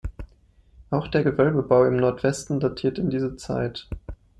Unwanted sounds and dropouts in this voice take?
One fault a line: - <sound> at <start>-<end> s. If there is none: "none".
none